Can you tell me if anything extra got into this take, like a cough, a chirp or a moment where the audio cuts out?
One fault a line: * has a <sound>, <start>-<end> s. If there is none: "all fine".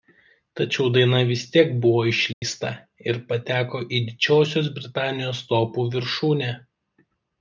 * has a dropout, 2.3-2.4 s